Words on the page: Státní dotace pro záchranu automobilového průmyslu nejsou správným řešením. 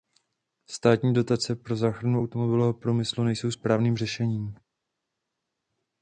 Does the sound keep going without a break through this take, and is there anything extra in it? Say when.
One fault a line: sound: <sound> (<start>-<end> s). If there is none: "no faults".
no faults